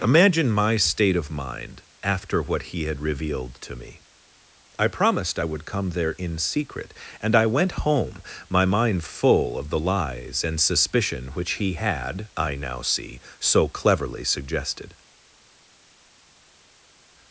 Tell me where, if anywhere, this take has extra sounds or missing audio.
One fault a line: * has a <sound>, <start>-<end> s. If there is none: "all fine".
all fine